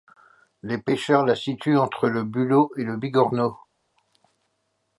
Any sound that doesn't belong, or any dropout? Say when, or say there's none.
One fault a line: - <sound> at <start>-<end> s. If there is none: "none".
none